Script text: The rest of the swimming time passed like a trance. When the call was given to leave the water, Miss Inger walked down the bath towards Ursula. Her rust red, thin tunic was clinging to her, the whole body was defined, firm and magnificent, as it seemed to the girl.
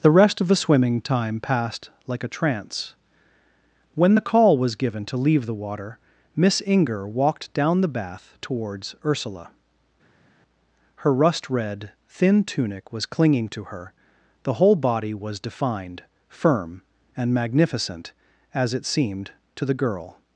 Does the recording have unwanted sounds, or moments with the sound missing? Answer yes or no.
no